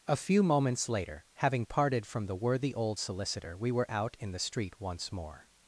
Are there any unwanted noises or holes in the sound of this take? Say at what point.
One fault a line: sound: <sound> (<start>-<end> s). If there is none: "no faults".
no faults